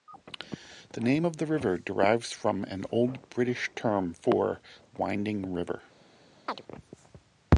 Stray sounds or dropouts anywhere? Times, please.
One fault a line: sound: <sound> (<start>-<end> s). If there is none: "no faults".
sound: chirp (6.5-6.6 s)